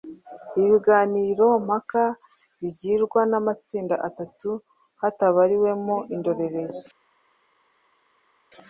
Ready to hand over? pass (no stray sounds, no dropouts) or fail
pass